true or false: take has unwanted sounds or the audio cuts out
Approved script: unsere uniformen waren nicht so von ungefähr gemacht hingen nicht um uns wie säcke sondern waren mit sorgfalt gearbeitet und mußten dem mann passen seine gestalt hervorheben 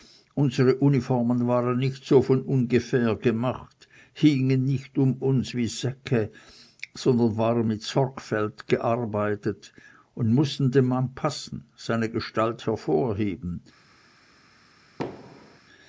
true